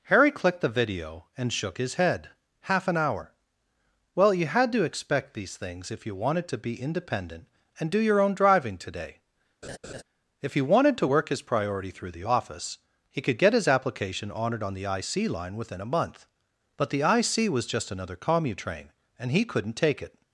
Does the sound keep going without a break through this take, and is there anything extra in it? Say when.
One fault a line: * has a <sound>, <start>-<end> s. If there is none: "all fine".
* has a laugh, 9.6-10.0 s